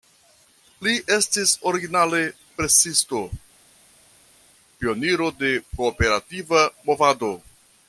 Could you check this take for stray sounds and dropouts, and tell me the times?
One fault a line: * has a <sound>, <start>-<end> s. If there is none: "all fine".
all fine